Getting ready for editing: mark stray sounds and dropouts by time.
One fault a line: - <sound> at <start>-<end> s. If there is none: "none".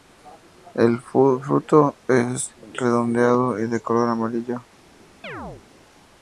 - chirp at 5.2-5.6 s